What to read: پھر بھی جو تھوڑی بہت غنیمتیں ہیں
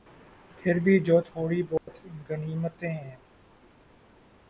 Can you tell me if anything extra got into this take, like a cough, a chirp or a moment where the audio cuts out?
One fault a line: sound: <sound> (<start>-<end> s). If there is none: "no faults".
sound: dropout (1.8-1.9 s)